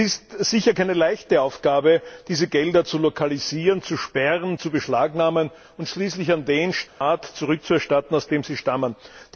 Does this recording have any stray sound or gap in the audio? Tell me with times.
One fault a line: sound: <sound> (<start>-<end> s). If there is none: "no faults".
sound: dropout (6.9-7.0 s)